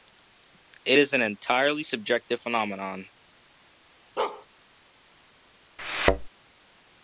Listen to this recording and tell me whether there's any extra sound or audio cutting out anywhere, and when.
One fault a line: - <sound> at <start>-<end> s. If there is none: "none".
- bark at 4.2-4.5 s
- thud at 5.8-6.3 s